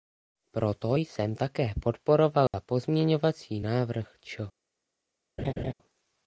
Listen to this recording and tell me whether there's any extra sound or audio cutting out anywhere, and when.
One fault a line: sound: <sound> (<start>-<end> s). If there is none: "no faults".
sound: dropout (2.5-2.5 s)
sound: laugh (5.4-5.7 s)